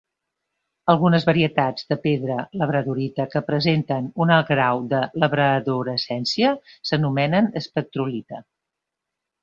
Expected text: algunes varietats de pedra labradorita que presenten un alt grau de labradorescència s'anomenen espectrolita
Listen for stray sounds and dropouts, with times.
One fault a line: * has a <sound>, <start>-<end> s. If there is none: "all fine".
all fine